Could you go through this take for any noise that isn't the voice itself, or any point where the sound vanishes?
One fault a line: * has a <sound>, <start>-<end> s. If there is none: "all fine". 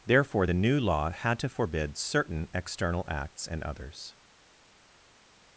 all fine